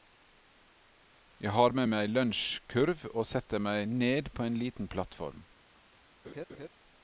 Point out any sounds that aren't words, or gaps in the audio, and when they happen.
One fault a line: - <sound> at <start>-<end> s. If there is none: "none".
- laugh at 6.2-6.7 s